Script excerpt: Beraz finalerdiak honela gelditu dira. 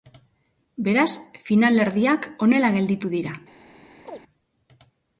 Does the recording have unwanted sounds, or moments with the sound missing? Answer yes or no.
yes